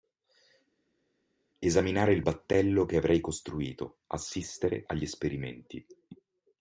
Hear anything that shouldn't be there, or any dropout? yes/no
no